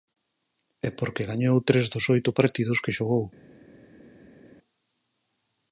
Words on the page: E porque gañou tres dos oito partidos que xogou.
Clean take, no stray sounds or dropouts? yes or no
yes